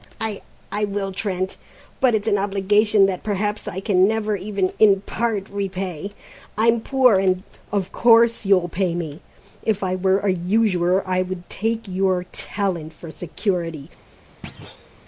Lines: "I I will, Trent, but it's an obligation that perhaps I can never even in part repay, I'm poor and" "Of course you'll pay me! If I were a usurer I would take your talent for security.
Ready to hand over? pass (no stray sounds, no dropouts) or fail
fail